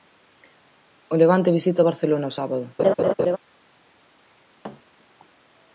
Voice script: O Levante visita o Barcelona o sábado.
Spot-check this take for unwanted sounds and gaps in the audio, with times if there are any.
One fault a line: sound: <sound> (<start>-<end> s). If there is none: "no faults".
sound: laugh (2.8-3.4 s)
sound: thud (4.6-4.8 s)